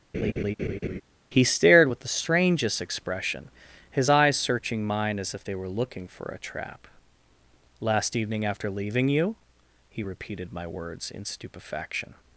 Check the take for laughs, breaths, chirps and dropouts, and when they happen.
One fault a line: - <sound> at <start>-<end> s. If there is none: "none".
- laugh at 0.1-1.0 s